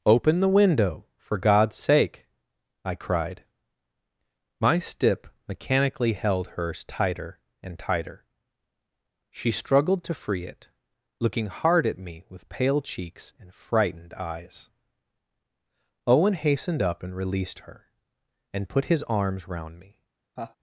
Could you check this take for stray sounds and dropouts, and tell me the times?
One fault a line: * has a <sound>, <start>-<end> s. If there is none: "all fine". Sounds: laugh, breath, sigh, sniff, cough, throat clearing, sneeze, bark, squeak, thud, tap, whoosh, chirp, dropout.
* has a laugh, 20.4-20.6 s